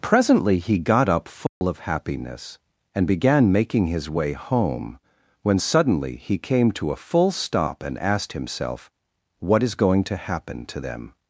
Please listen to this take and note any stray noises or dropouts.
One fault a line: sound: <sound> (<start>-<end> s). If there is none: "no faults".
sound: dropout (1.5-1.6 s)